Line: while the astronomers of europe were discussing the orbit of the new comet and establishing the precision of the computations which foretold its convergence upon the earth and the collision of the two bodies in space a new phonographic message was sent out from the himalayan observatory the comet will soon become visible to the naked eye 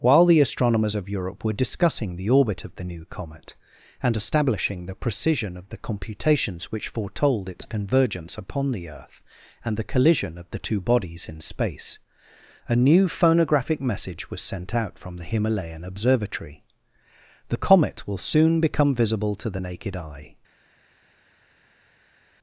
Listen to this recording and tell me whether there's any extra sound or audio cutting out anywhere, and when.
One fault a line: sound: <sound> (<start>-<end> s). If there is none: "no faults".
no faults